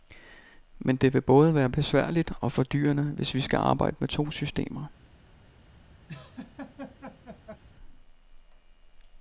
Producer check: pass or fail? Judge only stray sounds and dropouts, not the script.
fail